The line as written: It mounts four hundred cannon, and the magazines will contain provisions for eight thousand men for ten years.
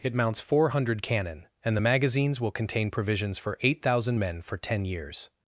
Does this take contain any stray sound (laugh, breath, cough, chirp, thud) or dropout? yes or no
no